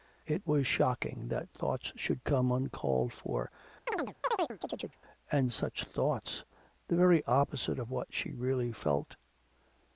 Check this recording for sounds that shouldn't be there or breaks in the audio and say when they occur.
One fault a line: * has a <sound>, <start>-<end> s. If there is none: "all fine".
* has a chirp, 3.9-5.0 s